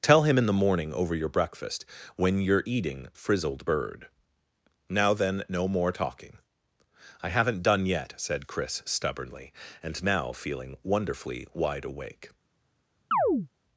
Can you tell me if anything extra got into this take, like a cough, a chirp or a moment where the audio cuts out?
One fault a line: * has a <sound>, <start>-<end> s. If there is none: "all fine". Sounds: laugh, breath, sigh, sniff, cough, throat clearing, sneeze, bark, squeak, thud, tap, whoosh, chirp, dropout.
* has a chirp, 13.1-13.5 s